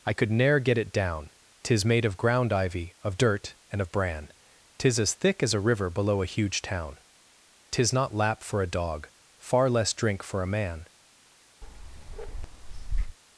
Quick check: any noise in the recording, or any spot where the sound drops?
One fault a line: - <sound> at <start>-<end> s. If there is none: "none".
- bark at 11.6-13.2 s